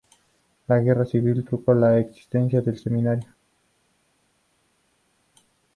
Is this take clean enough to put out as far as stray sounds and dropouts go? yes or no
yes